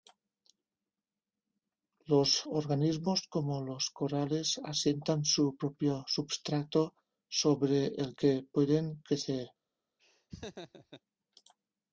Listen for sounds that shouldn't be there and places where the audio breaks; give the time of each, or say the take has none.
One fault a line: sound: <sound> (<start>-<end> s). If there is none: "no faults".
sound: laugh (10.0-11.0 s)